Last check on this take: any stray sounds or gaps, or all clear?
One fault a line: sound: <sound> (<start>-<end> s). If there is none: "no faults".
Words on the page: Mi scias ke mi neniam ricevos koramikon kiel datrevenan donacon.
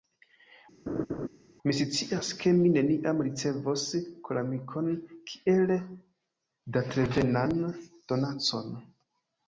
sound: laugh (0.9-1.3 s)